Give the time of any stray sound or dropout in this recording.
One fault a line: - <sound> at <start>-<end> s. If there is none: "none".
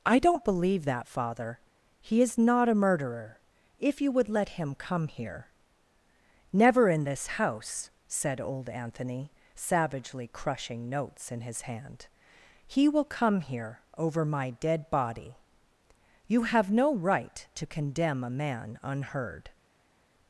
none